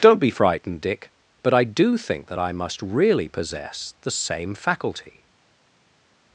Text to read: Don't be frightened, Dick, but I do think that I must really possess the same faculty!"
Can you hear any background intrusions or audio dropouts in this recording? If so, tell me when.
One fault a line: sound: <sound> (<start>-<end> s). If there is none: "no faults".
no faults